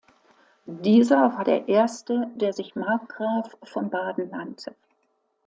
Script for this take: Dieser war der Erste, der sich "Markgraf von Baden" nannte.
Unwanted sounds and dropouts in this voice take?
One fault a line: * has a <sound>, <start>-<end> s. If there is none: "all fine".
all fine